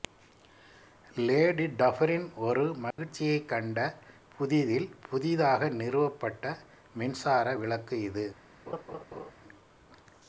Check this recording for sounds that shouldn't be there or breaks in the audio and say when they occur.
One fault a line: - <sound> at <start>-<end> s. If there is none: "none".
- dropout at 2.9-3.0 s
- laugh at 8.7-9.3 s